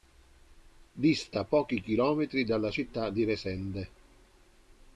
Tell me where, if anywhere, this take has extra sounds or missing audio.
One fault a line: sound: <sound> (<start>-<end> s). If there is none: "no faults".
no faults